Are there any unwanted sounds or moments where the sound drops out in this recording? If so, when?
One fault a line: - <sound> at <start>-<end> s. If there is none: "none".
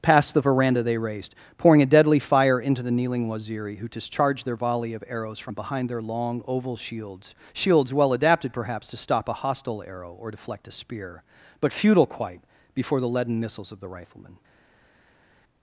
none